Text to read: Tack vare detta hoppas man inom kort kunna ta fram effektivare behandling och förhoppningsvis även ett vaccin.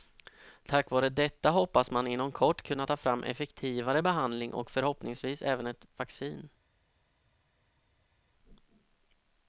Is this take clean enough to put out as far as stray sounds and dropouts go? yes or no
yes